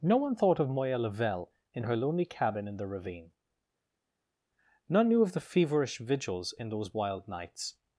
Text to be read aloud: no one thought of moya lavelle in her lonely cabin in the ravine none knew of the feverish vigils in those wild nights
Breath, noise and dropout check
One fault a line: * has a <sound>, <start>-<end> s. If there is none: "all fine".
all fine